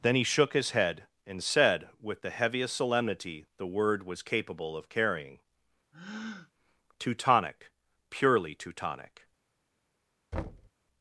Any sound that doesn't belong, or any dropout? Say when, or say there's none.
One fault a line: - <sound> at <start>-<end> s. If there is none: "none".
- breath at 5.9-6.5 s
- thud at 10.3-10.7 s